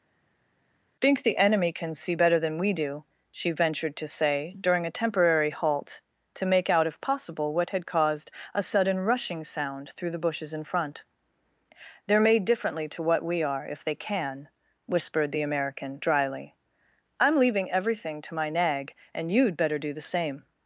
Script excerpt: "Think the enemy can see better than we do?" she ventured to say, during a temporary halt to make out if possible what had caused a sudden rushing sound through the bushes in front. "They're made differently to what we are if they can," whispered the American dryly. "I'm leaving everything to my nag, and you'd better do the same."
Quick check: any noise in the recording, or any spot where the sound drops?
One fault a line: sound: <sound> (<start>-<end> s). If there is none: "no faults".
no faults